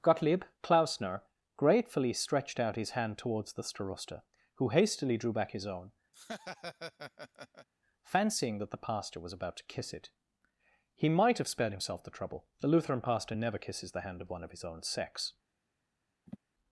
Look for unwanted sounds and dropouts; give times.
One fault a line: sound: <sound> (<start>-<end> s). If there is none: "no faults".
sound: laugh (6.1-7.7 s)
sound: sniff (16.3-16.4 s)